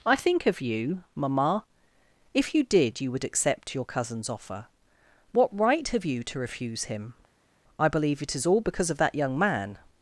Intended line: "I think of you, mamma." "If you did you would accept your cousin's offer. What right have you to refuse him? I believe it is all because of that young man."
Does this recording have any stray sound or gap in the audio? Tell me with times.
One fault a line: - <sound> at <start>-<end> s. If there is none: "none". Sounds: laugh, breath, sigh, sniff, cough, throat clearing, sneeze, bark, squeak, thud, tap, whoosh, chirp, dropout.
none